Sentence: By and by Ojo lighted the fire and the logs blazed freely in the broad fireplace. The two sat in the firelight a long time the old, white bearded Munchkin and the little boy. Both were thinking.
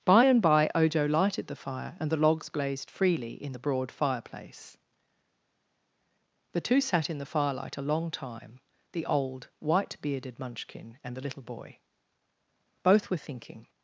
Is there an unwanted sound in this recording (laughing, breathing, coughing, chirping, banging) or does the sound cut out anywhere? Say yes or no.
no